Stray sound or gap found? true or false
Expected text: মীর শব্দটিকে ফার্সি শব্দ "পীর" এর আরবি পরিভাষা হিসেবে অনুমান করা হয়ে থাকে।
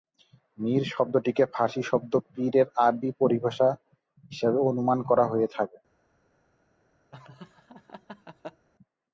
true